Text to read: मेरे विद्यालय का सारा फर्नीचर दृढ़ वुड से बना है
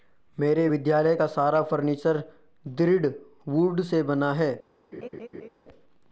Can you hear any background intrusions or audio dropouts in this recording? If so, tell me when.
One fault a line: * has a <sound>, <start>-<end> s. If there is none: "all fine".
* has a laugh, 4.9-5.5 s